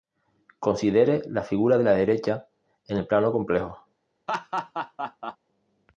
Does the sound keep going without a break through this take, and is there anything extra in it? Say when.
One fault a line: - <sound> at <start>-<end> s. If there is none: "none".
- laugh at 4.3-5.4 s